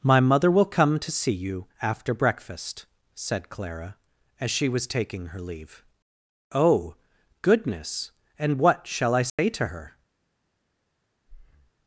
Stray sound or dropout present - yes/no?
yes